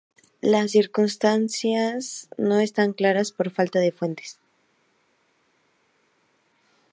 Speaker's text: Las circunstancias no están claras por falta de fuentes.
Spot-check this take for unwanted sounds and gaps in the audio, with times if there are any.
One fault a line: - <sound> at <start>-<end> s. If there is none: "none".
none